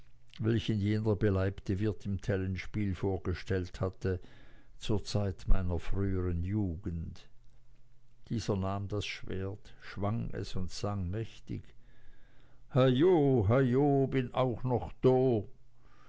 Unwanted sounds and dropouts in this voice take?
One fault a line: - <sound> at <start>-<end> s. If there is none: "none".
none